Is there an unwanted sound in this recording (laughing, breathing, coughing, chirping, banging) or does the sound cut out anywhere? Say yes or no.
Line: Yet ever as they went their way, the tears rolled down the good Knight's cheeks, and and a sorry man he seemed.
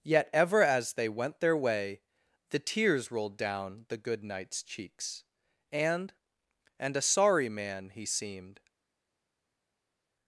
no